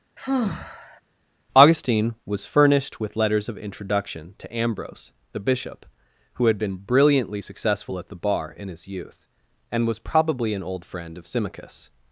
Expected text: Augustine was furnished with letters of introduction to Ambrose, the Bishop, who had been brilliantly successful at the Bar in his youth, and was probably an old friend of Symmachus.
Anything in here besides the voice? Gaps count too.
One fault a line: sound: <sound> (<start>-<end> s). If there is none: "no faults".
sound: sigh (0.2-1.0 s)